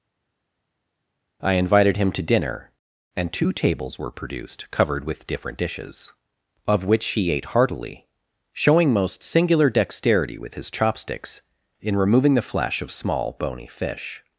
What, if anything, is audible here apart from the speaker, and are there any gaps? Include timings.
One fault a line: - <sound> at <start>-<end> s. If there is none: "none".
none